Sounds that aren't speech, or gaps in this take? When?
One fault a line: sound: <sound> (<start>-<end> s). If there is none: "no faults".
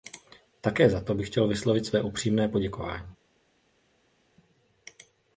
no faults